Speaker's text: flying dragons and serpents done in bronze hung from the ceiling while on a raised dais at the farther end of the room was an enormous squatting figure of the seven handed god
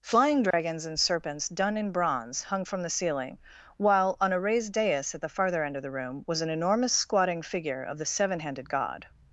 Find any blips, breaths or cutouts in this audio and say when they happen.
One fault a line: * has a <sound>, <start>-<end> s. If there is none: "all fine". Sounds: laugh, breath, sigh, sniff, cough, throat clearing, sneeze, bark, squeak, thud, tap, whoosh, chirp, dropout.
* has a dropout, 0.5-0.5 s